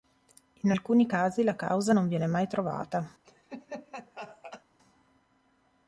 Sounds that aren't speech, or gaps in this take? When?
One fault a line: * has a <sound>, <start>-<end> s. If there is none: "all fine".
* has a laugh, 3.2-4.6 s